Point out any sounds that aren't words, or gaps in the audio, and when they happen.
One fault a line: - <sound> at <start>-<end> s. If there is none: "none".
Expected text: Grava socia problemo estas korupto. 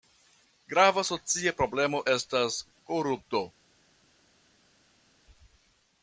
none